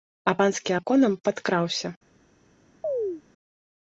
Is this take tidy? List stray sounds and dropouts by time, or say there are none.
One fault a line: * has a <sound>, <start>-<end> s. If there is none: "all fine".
* has a chirp, 2.8-3.2 s